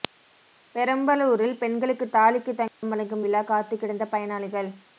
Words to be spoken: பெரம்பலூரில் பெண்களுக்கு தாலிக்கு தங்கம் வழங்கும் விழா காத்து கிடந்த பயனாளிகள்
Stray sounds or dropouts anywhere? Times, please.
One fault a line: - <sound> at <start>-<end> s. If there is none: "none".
- dropout at 2.7-2.8 s